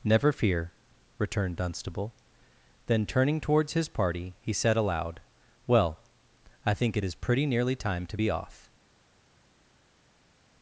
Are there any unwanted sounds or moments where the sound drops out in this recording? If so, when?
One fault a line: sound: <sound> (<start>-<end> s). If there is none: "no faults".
no faults